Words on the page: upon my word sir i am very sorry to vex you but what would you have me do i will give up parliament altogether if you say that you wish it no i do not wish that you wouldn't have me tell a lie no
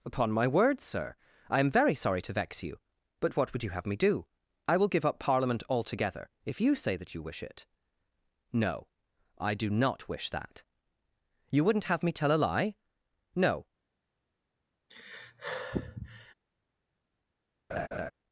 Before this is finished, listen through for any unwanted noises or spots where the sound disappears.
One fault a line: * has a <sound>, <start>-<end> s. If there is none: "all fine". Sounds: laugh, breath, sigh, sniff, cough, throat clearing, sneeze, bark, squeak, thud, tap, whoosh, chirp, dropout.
* has a sigh, 14.9-16.3 s
* has a laugh, 17.7-18.1 s